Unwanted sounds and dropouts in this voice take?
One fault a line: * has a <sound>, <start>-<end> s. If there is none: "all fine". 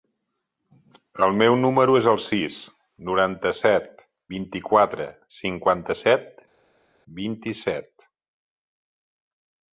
all fine